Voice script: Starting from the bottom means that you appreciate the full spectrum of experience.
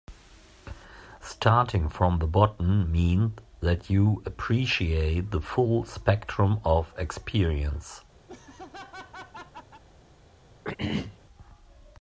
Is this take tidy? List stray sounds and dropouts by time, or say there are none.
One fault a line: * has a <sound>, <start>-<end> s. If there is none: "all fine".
* has a laugh, 8.3-9.8 s
* has a throat clearing, 10.6-11.2 s